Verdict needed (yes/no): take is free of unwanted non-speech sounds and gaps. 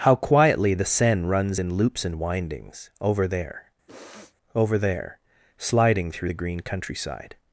no